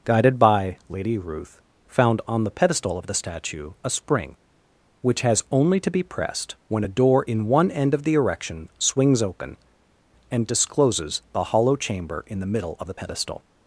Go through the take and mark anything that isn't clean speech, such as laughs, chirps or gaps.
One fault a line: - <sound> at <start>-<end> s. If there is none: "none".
none